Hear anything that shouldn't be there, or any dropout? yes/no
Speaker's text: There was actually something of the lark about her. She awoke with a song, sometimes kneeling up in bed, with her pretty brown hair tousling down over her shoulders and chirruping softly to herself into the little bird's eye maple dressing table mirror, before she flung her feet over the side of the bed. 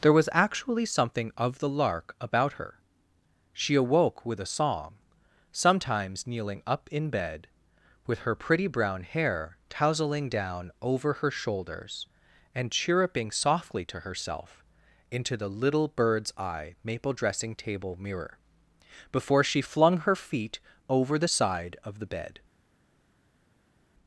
no